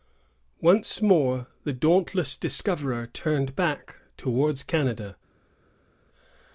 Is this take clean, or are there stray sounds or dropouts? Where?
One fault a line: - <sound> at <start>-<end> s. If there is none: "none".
none